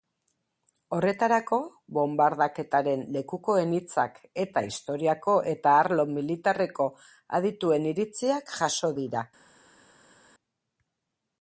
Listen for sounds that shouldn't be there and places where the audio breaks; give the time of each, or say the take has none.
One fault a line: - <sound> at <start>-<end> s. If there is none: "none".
none